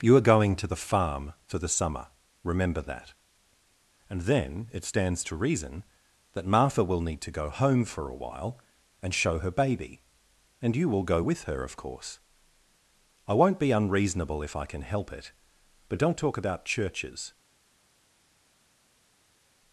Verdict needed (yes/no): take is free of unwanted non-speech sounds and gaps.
yes